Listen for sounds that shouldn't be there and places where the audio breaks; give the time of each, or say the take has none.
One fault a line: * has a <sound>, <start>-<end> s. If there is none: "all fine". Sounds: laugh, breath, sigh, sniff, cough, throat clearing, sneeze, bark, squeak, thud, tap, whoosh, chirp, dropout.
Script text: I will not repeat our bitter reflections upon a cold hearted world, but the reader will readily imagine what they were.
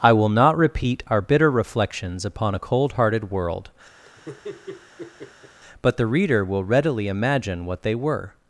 * has a laugh, 4.0-5.6 s